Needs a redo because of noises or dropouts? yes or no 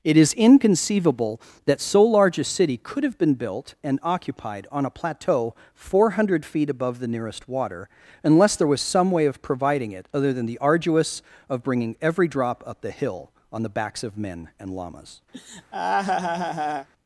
yes